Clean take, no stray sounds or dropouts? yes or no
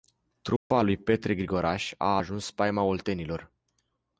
no